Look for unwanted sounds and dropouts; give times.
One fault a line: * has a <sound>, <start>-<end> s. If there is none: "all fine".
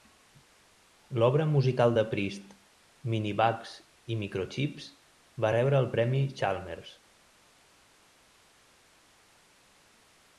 all fine